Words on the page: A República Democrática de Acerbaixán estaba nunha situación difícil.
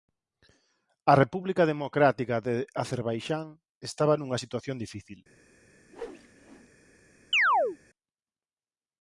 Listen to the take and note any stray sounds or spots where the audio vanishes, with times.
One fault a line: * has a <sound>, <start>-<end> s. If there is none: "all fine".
* has a whoosh, 5.9-6.7 s
* has a chirp, 7.3-7.8 s